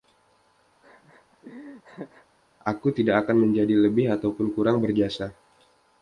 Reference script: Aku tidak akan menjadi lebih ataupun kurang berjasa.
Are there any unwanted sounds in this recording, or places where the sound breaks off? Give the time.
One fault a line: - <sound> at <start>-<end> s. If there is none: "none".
- laugh at 0.8-2.3 s